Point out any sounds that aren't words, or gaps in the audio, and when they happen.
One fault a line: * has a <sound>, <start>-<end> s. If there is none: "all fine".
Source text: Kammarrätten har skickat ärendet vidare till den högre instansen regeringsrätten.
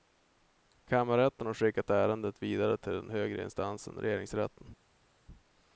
all fine